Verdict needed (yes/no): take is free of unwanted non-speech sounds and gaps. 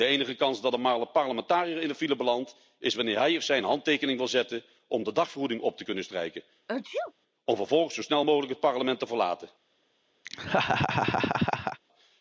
no